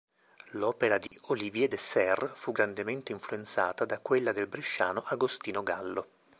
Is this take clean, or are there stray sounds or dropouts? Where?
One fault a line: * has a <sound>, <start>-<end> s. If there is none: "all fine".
* has a dropout, 1.1-1.1 s